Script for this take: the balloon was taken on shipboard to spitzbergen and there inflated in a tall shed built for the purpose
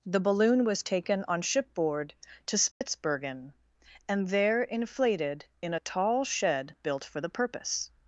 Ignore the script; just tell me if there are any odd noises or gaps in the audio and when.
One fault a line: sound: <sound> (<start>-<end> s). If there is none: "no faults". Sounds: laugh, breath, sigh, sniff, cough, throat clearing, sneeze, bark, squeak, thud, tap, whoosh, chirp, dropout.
sound: dropout (2.7-2.8 s)